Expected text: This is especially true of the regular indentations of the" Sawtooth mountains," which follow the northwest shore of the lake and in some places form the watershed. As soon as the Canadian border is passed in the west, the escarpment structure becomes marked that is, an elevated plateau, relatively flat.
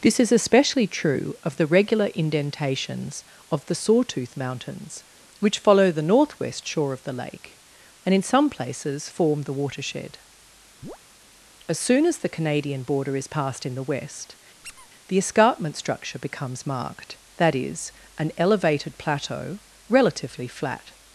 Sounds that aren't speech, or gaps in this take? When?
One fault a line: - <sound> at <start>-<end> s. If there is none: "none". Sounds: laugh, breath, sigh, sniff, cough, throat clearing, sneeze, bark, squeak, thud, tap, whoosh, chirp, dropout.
- chirp at 10.8-11.0 s
- squeak at 14.6-14.9 s